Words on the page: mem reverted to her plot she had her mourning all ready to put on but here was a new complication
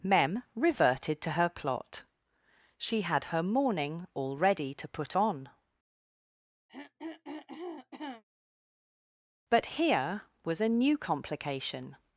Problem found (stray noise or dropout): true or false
true